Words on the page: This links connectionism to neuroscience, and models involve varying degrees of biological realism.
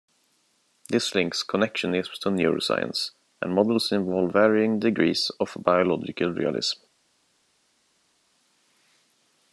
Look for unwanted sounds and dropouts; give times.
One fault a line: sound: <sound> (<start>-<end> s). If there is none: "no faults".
no faults